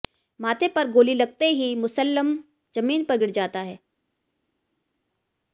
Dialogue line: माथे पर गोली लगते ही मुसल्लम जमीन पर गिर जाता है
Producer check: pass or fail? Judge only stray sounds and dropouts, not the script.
pass